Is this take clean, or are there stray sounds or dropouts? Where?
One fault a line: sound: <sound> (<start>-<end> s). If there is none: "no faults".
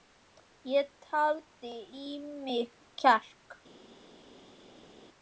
no faults